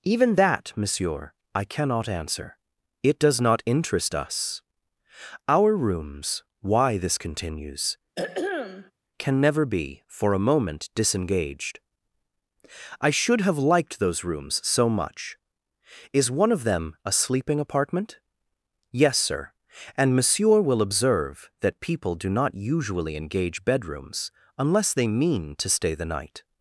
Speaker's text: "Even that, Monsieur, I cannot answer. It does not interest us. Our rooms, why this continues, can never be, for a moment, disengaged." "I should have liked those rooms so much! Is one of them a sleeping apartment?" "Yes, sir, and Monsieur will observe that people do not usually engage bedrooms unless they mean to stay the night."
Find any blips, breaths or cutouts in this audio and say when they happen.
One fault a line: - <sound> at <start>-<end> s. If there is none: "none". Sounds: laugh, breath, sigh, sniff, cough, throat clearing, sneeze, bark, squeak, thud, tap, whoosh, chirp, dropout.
- throat clearing at 8.2-8.9 s